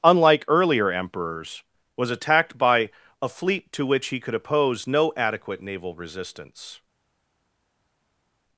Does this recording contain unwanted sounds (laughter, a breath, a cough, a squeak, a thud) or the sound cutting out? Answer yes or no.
no